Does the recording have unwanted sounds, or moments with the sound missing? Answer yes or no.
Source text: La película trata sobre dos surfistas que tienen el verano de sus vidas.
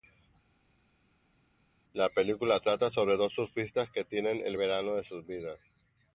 no